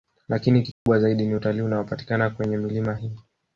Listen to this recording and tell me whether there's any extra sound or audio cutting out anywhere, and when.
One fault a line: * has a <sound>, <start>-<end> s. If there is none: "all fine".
* has a dropout, 0.7-0.9 s